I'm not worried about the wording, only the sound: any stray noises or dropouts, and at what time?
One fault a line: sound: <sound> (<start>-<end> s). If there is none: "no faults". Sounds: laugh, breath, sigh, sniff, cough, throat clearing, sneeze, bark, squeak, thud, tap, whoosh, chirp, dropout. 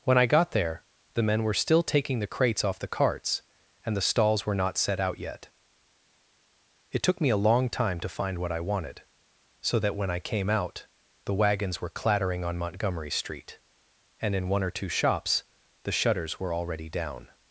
no faults